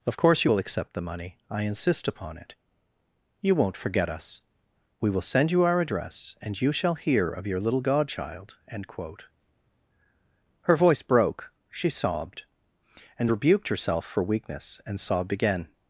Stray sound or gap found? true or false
false